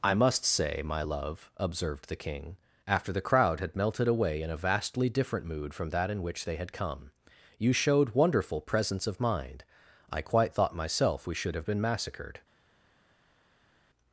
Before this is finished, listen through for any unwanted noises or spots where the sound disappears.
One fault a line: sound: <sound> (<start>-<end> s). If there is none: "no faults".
no faults